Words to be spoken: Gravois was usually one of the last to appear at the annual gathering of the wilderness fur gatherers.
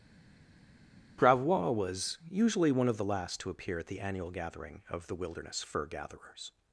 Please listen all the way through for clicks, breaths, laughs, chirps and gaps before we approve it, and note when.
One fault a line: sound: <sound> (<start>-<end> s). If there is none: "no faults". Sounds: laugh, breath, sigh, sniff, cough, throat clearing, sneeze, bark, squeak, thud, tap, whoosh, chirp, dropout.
no faults